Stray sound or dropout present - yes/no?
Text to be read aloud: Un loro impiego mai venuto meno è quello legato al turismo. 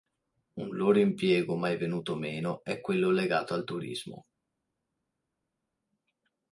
no